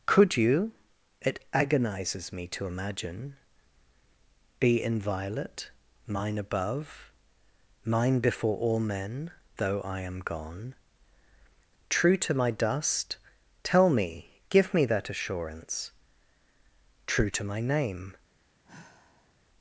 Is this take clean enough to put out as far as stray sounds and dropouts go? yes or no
no